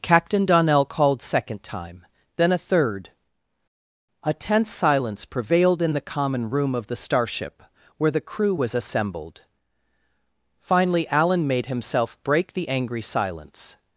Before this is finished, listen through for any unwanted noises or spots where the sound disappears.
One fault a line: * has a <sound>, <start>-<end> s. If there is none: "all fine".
all fine